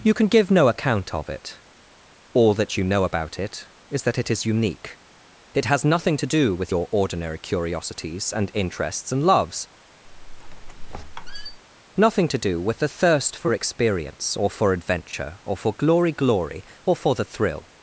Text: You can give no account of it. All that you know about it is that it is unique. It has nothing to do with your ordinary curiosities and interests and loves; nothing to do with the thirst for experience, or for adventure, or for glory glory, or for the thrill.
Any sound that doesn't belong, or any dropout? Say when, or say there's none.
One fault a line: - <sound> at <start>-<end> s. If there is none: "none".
- squeak at 10.1-11.6 s